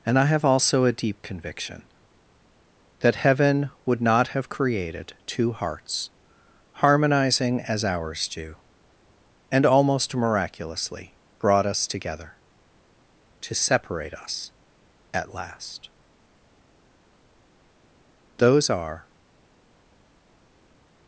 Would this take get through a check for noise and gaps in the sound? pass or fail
pass